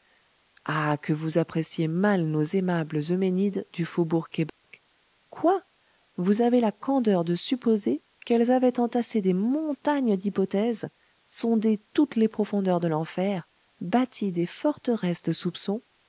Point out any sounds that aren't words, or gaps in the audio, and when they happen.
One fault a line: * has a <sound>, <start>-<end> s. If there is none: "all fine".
* has a dropout, 4.5-4.6 s